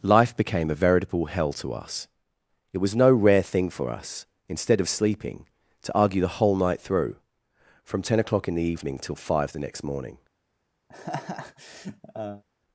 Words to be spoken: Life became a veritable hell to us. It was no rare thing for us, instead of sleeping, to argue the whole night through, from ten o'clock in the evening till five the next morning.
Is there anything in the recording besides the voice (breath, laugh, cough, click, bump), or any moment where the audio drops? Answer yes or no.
yes